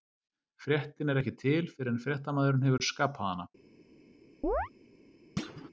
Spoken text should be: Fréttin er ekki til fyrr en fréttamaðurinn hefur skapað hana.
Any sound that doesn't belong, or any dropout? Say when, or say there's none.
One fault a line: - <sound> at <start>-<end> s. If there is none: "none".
- chirp at 4.4-4.7 s
- thud at 5.4-5.7 s